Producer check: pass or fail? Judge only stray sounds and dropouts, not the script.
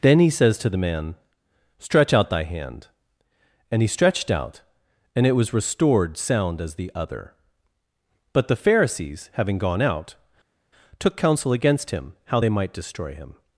pass